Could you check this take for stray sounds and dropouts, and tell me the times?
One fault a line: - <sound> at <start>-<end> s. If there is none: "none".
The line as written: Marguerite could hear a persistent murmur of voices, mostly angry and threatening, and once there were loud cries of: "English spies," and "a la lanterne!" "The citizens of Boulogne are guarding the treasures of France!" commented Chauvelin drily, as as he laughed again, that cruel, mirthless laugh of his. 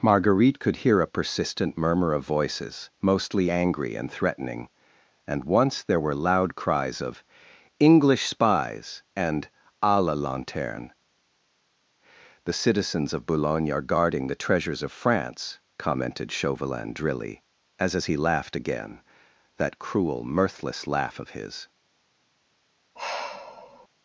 - sigh at 23.0-23.9 s